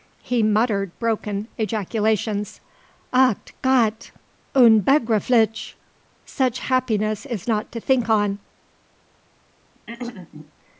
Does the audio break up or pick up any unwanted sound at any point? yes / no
yes